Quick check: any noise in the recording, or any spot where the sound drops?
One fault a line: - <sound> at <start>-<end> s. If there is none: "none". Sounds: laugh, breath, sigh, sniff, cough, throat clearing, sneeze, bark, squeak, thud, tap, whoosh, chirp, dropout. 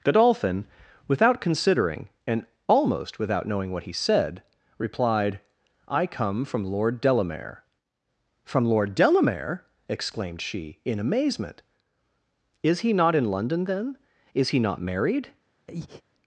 - breath at 15.7-16.0 s